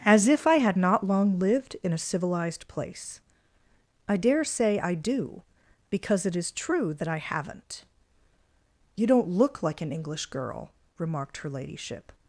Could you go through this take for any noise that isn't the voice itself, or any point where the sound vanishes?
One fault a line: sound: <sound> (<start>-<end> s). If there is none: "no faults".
no faults